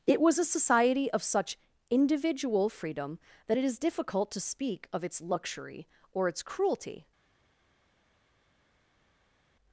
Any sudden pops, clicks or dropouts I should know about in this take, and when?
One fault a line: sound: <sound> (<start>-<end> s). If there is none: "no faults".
no faults